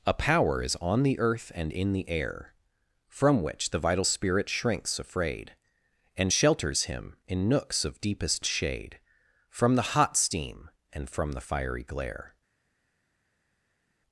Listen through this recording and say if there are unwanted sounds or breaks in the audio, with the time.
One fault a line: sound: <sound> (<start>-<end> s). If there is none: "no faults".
no faults